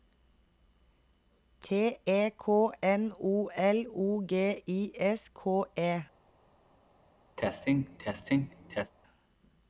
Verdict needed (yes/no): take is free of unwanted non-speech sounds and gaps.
no